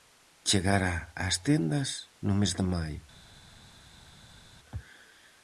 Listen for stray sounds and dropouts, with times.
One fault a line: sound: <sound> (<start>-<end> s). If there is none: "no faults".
no faults